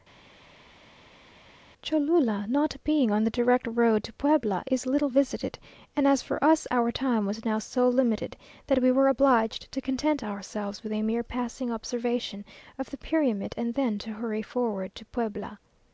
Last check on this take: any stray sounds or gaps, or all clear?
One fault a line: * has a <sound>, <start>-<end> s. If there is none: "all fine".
all fine